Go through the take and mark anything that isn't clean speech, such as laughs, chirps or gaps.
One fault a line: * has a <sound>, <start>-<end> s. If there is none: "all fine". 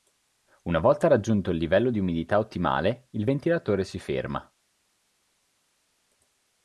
all fine